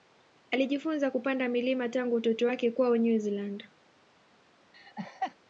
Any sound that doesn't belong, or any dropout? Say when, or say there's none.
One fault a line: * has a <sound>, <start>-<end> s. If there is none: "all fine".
* has a laugh, 4.7-5.3 s